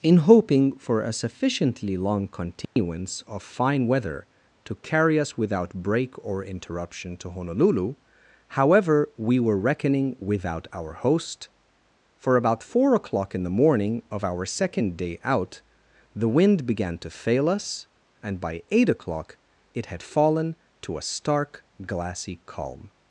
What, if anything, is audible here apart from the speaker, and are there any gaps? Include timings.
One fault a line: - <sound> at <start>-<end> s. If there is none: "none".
- dropout at 2.6-2.8 s